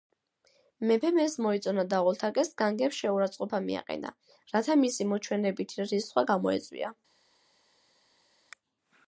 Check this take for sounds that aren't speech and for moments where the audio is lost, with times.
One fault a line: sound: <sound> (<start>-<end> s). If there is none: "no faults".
no faults